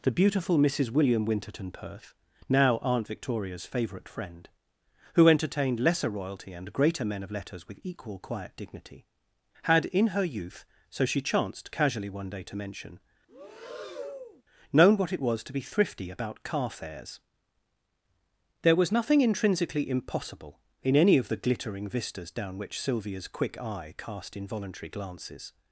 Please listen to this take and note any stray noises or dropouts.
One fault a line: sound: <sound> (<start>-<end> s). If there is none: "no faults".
sound: breath (13.3-14.4 s)